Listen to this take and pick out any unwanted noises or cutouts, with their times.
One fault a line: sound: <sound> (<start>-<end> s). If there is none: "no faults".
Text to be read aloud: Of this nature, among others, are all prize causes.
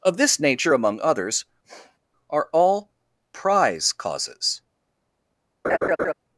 sound: sniff (1.6-2.0 s)
sound: laugh (5.6-6.1 s)